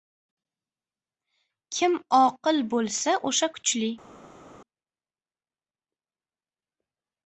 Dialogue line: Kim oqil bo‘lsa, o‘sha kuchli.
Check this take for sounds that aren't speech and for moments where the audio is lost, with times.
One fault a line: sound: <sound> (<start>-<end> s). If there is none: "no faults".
no faults